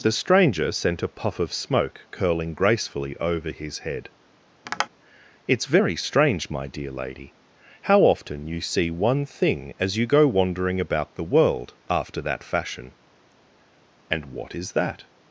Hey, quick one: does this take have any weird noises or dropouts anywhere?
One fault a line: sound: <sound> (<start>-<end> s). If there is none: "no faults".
sound: tap (4.6-4.9 s)